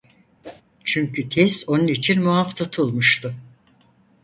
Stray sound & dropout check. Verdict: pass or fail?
fail